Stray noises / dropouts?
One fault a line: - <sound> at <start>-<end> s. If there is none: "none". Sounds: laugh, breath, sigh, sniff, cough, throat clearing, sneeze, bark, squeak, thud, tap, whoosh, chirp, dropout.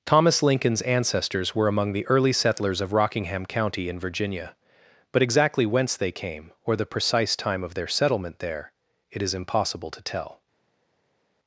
none